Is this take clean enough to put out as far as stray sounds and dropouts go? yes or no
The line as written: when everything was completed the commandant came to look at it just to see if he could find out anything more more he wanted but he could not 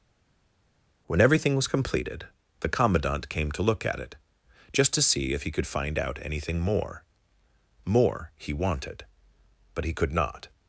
yes